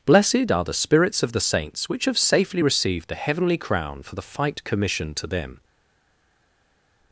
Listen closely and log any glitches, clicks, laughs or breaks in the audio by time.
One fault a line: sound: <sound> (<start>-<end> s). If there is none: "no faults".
no faults